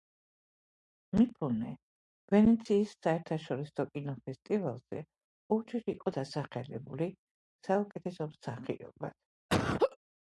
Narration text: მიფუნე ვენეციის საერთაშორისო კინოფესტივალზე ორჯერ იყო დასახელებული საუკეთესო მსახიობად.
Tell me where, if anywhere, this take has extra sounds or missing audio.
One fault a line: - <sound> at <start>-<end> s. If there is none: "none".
- laugh at 9.5-10.0 s